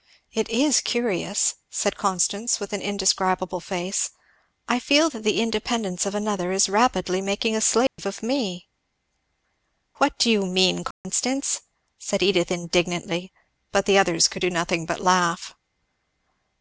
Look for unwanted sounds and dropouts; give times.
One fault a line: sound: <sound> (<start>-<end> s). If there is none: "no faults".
sound: dropout (7.9-8.0 s)
sound: dropout (10.9-11.0 s)